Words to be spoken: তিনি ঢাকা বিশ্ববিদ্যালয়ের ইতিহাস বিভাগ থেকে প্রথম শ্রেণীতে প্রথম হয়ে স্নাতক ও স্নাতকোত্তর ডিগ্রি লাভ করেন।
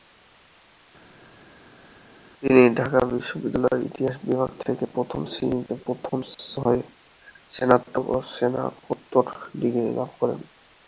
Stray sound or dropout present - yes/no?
no